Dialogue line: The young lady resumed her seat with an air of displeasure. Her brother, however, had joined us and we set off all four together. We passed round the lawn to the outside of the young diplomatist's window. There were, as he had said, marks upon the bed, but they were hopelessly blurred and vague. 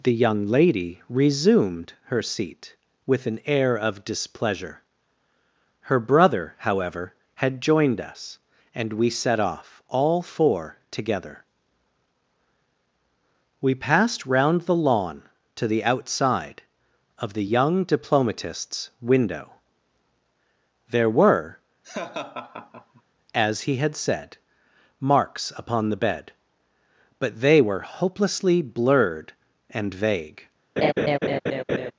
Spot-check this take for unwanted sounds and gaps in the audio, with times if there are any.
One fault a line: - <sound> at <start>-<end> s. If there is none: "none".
- laugh at 21.8-23.0 s
- laugh at 30.8-31.9 s